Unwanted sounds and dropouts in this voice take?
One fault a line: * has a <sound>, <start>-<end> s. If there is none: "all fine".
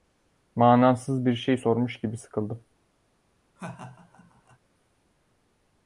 * has a laugh, 3.6-4.6 s